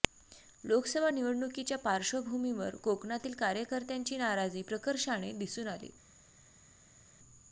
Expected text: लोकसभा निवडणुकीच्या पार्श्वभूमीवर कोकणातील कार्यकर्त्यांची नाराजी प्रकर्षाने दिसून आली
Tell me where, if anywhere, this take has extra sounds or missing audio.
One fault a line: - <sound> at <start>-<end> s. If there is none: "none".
none